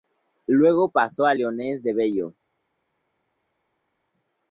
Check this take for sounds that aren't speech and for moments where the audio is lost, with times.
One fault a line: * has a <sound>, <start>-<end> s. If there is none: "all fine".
all fine